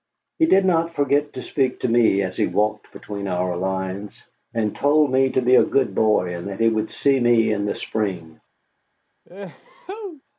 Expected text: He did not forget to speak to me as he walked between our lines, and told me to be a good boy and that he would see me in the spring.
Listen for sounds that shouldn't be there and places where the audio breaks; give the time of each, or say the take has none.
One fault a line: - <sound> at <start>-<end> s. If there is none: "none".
- sneeze at 9.2-10.2 s